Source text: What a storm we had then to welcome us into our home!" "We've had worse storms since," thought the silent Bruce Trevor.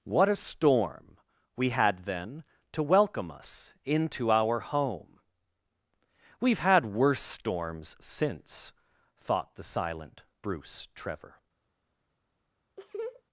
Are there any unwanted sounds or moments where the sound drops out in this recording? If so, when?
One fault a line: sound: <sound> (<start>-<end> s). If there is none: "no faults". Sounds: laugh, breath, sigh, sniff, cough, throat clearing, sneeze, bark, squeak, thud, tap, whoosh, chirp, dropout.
sound: laugh (12.8-13.2 s)